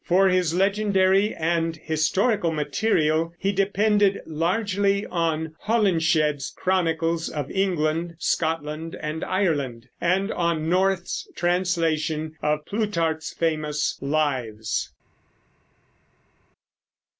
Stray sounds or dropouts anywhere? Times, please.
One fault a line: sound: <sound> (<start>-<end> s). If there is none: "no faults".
no faults